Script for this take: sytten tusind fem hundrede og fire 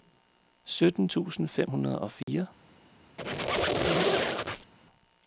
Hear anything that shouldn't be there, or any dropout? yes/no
yes